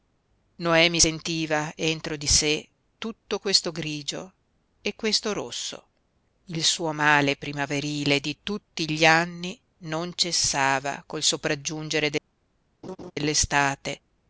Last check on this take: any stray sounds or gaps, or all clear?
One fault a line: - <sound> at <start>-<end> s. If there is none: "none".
- laugh at 12.8-13.1 s